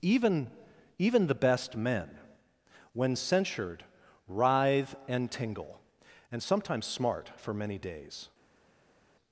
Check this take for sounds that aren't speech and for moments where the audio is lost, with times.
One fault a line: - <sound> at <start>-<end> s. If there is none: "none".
none